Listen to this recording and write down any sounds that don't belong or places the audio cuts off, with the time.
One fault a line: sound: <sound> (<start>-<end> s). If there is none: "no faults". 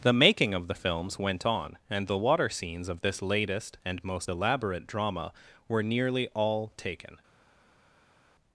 no faults